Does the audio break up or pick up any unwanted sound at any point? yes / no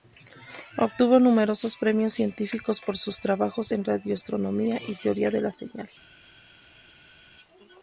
no